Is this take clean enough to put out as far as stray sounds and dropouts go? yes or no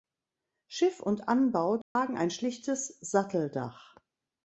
no